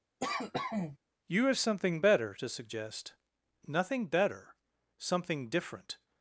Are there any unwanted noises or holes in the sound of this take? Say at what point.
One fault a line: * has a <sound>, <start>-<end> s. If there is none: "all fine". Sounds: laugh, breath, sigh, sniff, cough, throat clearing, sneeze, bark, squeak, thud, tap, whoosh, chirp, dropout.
* has a cough, 0.2-1.0 s